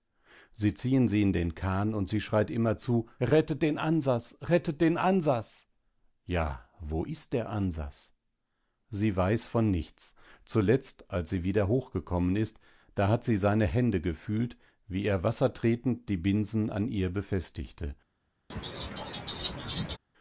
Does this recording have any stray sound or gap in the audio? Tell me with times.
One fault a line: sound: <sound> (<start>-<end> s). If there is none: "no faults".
sound: laugh (18.5-20.0 s)